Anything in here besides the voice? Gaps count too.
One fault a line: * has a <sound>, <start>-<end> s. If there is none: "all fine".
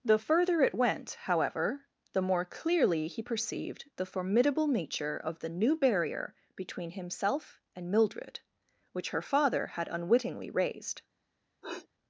* has a sniff, 11.6-11.9 s